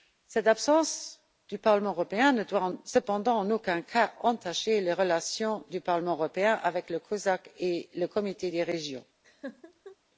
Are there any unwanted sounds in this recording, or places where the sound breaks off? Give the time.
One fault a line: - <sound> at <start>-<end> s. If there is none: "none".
- laugh at 9.2-10.0 s